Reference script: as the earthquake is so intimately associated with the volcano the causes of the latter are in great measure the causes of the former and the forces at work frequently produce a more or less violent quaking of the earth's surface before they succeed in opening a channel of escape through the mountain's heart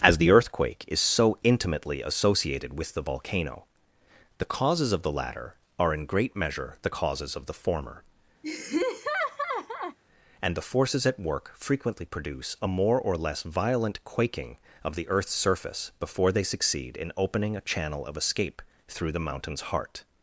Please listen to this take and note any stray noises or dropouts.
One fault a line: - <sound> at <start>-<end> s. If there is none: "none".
- laugh at 8.4-10.0 s